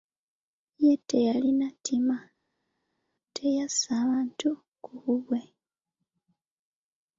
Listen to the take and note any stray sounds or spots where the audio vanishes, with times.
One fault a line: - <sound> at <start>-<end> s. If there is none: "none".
none